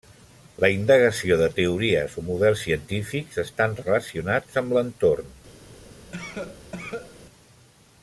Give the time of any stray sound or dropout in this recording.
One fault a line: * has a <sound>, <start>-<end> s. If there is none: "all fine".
* has a cough, 6.1-7.2 s